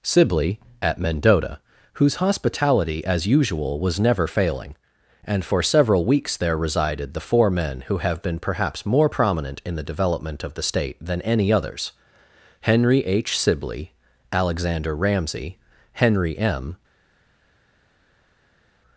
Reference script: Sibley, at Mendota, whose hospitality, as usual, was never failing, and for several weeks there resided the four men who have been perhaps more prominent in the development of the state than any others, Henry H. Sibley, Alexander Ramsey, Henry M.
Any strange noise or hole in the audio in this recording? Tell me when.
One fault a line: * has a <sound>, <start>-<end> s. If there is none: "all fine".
all fine